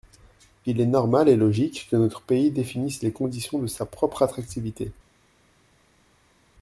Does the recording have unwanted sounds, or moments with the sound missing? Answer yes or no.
no